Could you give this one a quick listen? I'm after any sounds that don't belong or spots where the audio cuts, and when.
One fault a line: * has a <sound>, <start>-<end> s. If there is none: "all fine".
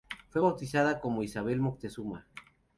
all fine